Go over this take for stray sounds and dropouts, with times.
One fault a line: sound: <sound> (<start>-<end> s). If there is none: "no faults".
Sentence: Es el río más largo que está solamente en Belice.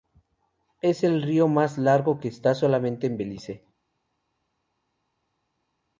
no faults